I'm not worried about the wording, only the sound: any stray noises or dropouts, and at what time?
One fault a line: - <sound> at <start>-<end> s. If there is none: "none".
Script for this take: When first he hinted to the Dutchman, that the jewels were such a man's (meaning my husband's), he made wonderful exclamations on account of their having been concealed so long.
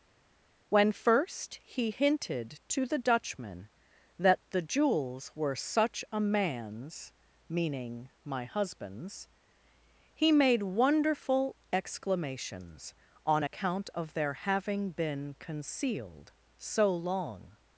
none